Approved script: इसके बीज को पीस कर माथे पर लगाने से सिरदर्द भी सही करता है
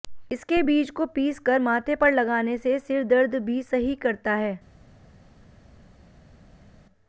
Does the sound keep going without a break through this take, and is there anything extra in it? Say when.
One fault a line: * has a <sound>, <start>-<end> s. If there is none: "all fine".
all fine